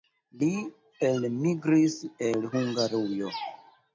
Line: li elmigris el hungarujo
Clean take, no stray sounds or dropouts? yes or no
yes